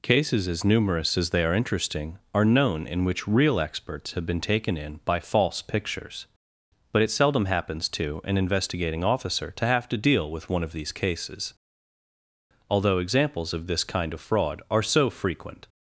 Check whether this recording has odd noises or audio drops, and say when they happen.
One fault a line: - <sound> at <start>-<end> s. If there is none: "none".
none